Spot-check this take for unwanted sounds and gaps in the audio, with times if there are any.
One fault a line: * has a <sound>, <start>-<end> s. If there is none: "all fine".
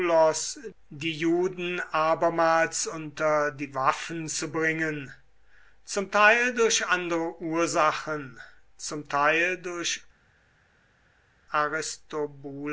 all fine